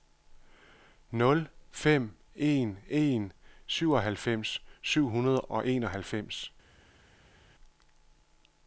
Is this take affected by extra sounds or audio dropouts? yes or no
no